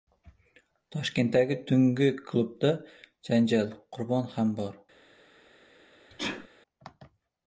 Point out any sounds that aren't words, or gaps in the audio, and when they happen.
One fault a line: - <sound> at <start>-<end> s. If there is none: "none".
- sneeze at 6.1-6.5 s